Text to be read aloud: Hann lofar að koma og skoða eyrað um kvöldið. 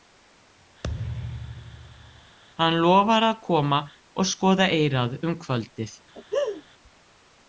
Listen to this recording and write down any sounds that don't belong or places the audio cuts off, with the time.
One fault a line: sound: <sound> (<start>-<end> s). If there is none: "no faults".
sound: thud (0.8-2.4 s)
sound: laugh (6.1-6.6 s)